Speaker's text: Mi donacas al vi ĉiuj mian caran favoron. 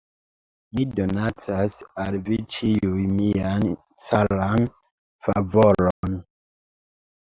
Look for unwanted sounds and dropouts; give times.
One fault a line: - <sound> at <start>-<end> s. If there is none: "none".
- dropout at 5.9-6.0 s